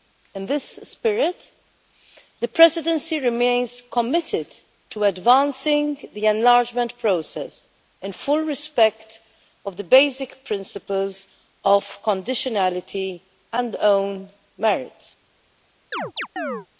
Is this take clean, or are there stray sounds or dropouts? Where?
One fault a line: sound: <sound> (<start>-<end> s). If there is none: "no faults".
sound: chirp (15.9-16.7 s)